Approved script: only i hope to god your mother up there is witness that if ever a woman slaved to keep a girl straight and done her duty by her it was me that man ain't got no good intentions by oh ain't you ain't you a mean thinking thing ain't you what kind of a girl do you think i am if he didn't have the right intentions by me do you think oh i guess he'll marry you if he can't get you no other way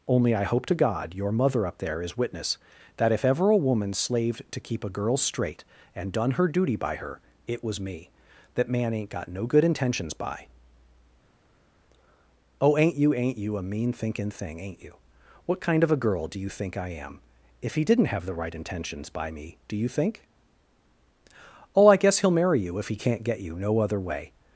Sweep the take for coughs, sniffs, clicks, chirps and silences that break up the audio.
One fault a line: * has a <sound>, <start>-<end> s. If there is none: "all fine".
all fine